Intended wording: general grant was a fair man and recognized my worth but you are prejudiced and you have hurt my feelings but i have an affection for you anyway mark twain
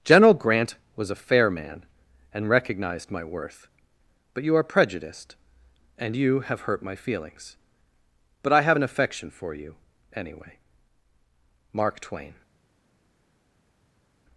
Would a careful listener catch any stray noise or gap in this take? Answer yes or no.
no